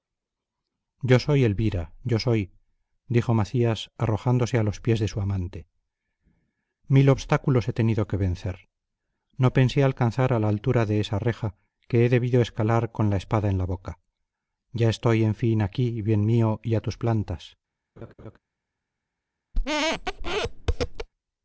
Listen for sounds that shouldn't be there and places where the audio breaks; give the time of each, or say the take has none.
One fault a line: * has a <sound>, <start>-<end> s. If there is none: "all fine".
* has a laugh, 18.0-18.4 s
* has a squeak, 19.5-21.1 s